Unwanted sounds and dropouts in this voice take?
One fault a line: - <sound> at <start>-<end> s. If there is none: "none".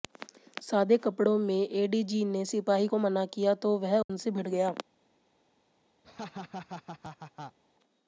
- dropout at 4.0-4.1 s
- laugh at 6.0-7.6 s